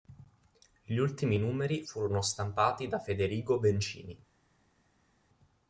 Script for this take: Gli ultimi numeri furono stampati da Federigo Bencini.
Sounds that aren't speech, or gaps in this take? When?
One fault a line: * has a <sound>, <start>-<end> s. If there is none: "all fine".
all fine